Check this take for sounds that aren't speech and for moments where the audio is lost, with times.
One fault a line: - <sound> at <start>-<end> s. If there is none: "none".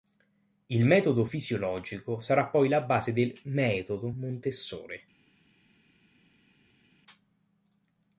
none